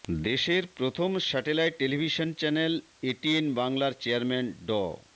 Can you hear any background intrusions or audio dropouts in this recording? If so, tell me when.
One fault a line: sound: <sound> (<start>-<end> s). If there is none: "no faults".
no faults